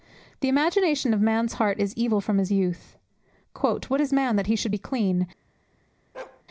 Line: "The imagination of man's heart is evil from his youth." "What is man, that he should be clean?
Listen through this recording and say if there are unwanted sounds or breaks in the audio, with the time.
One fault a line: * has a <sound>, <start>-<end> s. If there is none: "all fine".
* has a bark, 6.1-6.4 s